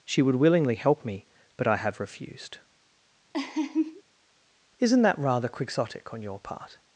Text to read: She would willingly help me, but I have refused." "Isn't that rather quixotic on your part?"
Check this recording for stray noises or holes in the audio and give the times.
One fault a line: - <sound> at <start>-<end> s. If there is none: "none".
- laugh at 3.3-4.0 s